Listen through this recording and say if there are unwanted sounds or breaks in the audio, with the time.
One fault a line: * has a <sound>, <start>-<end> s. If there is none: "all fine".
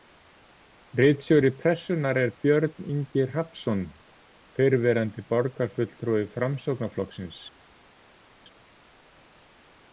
all fine